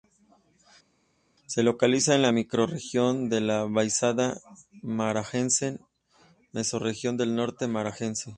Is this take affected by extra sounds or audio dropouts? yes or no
no